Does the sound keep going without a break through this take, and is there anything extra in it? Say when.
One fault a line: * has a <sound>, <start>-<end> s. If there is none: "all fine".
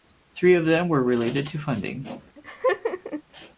* has a laugh, 2.4-3.2 s